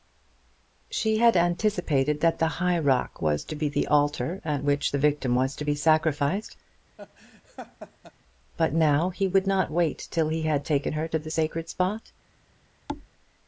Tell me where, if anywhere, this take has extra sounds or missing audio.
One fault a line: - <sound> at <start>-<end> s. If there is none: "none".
- laugh at 7.0-8.1 s
- thud at 12.9-13.1 s